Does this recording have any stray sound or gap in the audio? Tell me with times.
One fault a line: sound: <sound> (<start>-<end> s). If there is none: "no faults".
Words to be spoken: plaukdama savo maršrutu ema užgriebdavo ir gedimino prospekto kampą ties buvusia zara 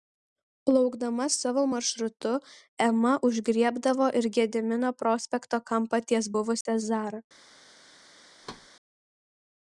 sound: dropout (6.6-6.7 s)
sound: thud (8.4-8.7 s)